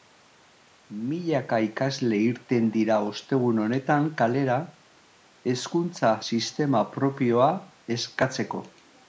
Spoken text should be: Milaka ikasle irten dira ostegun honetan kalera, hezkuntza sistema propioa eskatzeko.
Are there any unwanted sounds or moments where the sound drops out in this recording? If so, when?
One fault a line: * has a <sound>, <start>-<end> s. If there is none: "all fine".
all fine